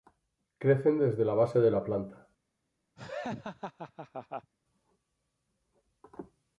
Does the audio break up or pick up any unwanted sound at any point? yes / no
yes